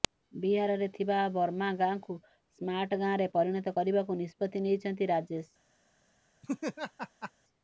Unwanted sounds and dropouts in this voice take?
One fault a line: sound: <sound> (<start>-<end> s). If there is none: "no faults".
sound: laugh (6.4-7.3 s)